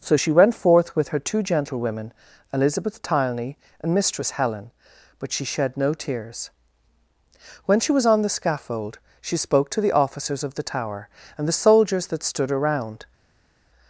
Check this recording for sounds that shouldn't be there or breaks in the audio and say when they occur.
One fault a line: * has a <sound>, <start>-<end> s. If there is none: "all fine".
all fine